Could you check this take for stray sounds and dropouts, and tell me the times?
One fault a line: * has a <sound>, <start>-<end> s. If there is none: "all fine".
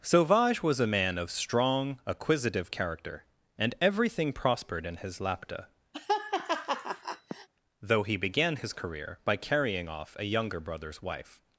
* has a laugh, 5.9-7.5 s